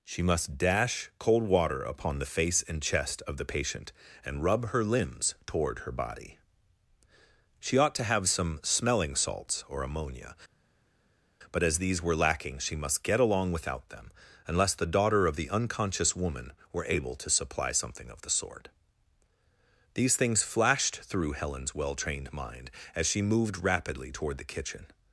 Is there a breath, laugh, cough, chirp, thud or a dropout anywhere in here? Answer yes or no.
no